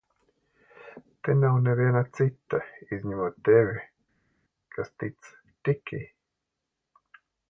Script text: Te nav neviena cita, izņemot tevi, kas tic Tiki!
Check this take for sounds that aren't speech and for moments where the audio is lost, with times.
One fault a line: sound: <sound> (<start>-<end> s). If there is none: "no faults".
no faults